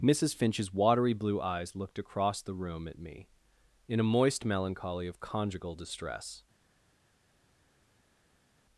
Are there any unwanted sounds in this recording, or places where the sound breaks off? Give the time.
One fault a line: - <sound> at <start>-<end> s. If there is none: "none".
none